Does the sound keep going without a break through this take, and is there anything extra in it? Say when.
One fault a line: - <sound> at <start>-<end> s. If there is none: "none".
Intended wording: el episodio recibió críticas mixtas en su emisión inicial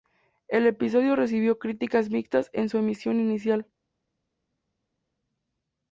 none